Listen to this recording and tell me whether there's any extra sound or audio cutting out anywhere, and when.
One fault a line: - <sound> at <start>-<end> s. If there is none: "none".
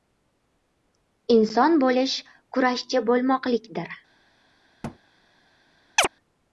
- thud at 4.8-5.0 s
- chirp at 6.0-6.1 s